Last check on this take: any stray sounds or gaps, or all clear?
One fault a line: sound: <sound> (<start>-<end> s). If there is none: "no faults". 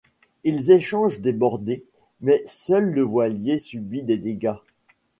no faults